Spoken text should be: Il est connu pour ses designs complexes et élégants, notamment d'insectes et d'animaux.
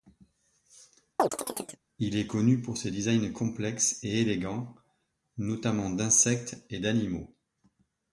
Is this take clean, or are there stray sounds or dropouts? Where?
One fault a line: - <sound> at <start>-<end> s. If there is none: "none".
- chirp at 1.2-1.8 s